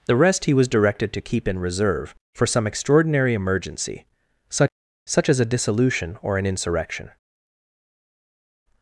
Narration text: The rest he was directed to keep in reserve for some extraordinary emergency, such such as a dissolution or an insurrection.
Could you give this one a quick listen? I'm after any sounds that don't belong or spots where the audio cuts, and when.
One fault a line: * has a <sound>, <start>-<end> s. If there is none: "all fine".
all fine